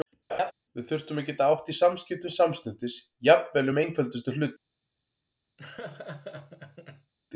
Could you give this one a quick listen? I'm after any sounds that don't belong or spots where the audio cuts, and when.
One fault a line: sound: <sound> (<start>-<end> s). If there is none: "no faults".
sound: laugh (0.3-0.5 s)
sound: laugh (5.6-7.1 s)